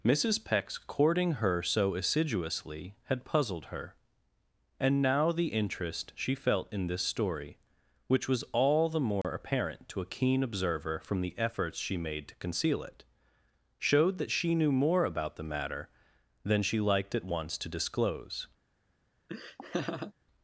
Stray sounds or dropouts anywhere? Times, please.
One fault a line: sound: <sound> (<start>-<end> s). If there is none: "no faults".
sound: dropout (9.2-9.2 s)
sound: laugh (19.3-20.1 s)